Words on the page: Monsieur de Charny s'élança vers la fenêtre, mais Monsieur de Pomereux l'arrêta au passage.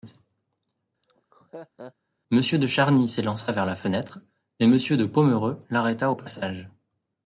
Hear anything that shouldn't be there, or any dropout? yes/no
yes